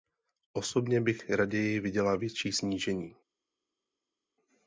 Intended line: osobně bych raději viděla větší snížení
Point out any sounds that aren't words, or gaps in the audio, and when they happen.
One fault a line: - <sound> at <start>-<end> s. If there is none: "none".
none